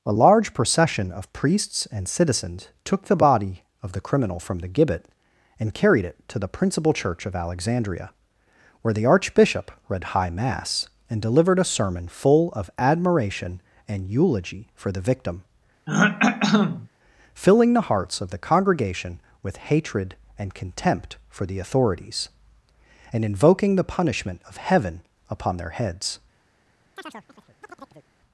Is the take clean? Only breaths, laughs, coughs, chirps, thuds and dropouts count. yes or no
no